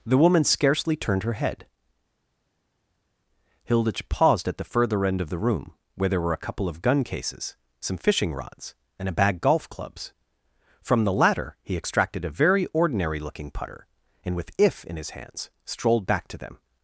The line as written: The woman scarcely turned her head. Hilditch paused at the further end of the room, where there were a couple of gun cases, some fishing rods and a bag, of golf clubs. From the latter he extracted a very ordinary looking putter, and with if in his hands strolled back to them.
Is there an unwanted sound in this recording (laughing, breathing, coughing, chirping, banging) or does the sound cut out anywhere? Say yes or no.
no